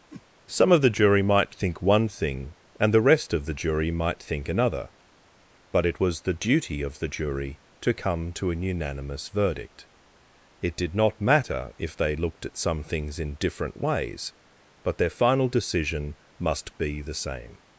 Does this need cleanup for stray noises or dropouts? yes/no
yes